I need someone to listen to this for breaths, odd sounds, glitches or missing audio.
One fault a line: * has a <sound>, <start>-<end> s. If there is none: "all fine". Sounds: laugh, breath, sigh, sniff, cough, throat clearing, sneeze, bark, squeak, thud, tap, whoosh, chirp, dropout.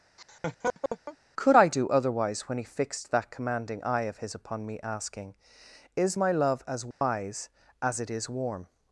* has a laugh, 0.2-1.2 s
* has a dropout, 6.9-7.0 s